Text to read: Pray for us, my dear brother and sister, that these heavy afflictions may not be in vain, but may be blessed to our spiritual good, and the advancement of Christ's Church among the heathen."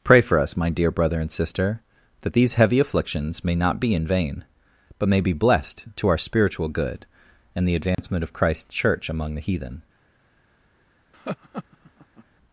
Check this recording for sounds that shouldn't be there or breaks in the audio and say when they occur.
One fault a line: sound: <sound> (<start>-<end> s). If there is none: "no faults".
sound: dropout (7.9-8.0 s)
sound: laugh (11.1-12.2 s)